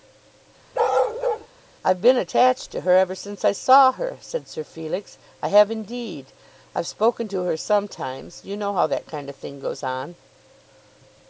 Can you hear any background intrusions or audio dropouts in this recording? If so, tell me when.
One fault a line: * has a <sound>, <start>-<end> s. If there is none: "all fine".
* has a bark, 0.7-1.5 s